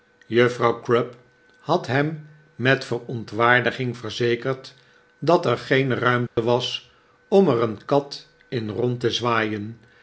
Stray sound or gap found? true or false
true